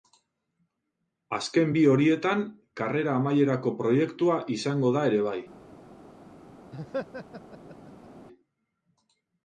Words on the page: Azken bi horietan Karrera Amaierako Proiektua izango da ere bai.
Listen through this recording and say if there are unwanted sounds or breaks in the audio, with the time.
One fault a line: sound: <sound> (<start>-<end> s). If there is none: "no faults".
sound: laugh (6.7-8.1 s)